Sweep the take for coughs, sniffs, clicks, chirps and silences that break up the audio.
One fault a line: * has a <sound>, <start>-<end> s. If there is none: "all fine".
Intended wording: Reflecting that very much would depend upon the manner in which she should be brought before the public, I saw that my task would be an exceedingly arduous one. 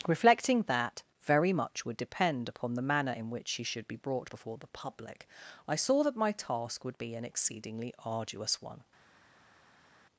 all fine